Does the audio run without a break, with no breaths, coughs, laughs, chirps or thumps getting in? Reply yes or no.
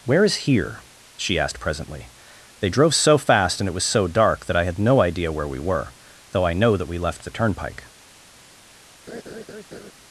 no